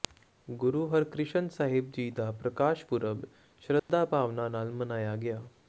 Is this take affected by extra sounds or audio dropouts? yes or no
yes